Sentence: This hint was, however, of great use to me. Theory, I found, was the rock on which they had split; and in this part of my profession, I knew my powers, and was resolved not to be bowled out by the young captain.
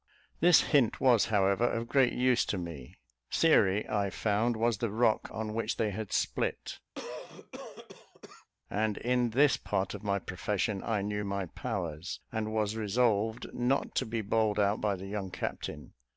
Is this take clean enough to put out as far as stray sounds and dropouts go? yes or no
no